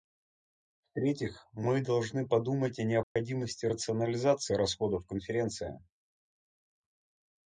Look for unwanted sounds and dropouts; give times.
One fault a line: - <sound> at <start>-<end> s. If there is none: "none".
- dropout at 3.0-3.2 s